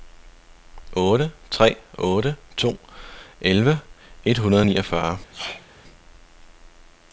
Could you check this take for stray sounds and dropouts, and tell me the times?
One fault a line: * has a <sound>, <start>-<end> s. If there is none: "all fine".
* has a sneeze, 5.3-5.7 s